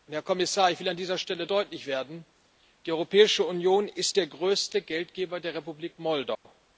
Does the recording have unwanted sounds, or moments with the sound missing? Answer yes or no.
yes